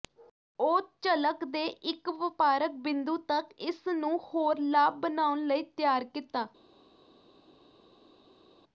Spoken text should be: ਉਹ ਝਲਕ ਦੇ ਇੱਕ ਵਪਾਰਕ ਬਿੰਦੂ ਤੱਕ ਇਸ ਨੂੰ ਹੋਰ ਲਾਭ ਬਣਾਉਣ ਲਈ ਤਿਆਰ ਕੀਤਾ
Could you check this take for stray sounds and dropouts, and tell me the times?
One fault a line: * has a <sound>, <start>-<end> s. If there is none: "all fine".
all fine